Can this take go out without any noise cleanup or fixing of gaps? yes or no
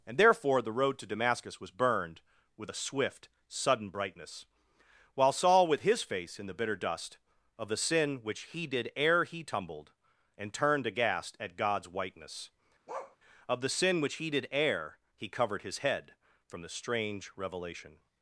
no